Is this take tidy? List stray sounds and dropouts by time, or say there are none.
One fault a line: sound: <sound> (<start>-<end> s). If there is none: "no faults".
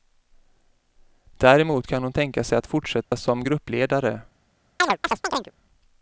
sound: dropout (3.0-3.1 s)
sound: chirp (4.8-5.5 s)